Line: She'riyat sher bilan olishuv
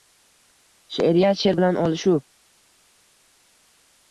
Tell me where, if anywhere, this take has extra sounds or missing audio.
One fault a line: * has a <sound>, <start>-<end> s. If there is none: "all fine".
all fine